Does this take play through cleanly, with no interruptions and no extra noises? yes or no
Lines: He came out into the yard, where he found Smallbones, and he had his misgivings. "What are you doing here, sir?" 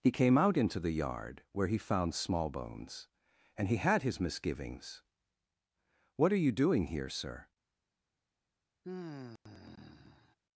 no